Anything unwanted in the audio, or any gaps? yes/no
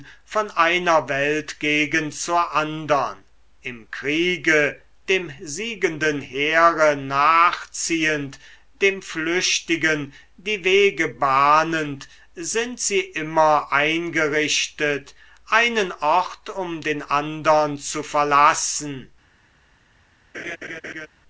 yes